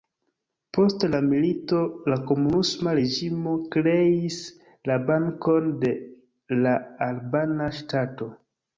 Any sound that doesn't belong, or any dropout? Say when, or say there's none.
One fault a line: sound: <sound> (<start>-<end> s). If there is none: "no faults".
no faults